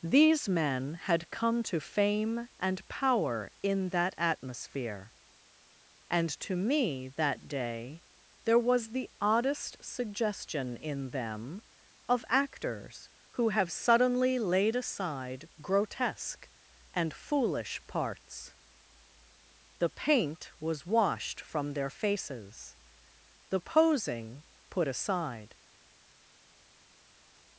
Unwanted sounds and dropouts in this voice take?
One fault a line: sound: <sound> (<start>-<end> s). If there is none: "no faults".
no faults